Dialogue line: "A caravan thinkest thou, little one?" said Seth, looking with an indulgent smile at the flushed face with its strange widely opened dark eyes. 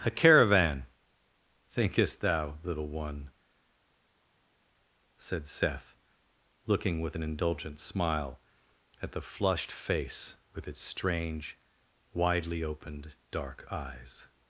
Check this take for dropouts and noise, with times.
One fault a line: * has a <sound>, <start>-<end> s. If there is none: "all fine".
all fine